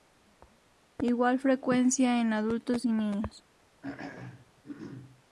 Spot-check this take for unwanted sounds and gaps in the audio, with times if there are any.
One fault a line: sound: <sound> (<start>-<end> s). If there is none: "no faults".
sound: throat clearing (3.8-5.2 s)